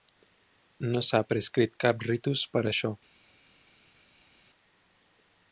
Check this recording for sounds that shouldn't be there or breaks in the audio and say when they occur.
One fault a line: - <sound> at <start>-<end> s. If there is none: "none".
none